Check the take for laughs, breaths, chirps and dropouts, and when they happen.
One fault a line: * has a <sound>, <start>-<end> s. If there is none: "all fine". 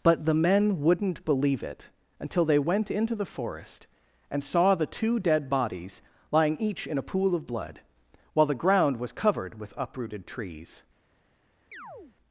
* has a chirp, 11.7-12.2 s